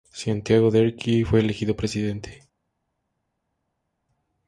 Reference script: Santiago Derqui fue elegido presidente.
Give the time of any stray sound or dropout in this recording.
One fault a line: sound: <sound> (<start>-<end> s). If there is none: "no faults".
no faults